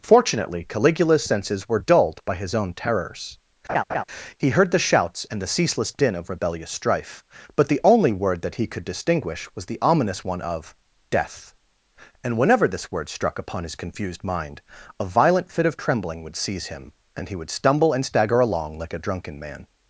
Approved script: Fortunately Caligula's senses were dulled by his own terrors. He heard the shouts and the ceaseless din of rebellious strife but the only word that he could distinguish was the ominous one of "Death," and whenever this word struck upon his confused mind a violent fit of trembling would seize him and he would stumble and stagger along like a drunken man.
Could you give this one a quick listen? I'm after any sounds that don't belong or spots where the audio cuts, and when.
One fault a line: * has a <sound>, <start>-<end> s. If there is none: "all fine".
* has a laugh, 3.7-4.0 s